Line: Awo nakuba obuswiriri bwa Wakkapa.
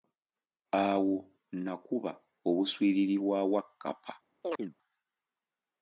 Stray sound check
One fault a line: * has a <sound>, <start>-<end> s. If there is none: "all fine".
* has a chirp, 4.4-4.7 s